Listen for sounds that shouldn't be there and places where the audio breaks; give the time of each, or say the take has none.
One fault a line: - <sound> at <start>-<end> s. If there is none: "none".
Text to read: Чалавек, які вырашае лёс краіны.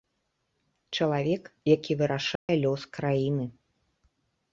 - dropout at 2.4-2.5 s